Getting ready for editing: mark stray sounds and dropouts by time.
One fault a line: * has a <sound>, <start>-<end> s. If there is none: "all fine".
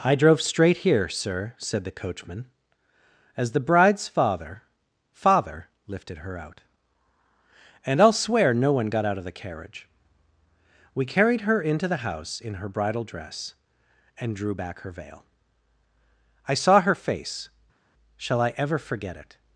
all fine